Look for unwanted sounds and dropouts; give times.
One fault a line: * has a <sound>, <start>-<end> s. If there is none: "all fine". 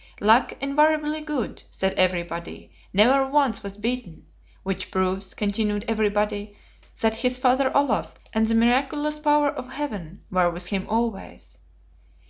all fine